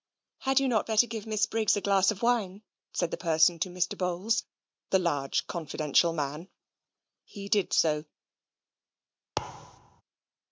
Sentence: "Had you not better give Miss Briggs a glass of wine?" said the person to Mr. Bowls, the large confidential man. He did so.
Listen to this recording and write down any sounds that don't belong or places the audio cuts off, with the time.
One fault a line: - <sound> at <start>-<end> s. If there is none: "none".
- thud at 9.4-10.0 s